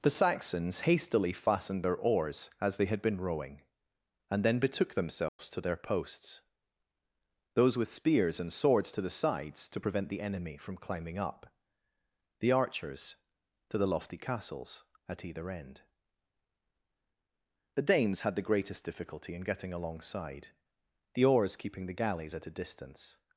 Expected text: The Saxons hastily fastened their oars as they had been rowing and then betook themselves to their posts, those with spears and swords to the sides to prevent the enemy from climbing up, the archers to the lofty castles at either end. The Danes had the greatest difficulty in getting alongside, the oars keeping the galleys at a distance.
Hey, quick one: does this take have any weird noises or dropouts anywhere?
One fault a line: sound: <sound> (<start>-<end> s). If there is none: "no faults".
sound: dropout (5.3-5.4 s)